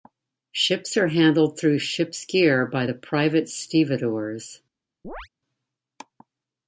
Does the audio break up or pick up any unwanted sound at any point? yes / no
yes